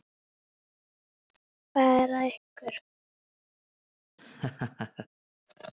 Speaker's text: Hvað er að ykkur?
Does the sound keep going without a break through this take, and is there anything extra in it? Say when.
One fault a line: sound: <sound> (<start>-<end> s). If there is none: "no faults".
sound: laugh (4.2-5.1 s)